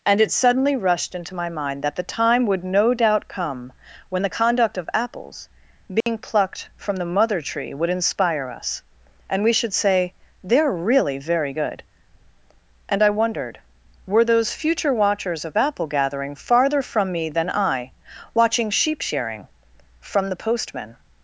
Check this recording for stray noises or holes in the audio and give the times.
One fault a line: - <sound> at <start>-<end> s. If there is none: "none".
- dropout at 6.0-6.1 s